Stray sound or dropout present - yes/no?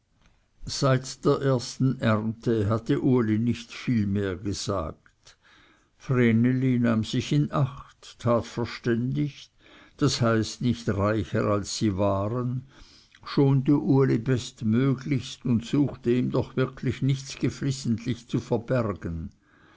no